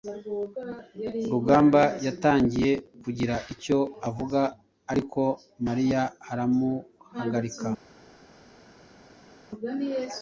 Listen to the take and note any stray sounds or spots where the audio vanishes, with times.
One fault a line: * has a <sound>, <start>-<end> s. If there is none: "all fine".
all fine